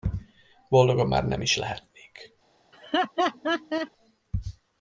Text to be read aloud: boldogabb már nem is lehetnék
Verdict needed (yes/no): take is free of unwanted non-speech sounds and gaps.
no